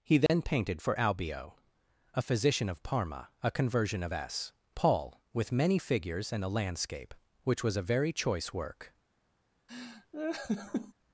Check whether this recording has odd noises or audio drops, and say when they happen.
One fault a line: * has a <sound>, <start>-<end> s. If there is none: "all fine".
* has a dropout, 0.3-0.3 s
* has a laugh, 9.7-10.9 s